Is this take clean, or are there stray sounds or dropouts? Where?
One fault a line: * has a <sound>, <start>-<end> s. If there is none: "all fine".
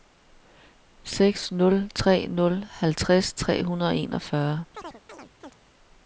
* has a chirp, 4.7-5.6 s